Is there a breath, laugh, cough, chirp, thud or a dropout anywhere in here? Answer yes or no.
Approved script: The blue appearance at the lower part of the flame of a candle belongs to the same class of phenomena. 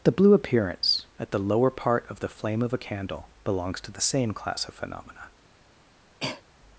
yes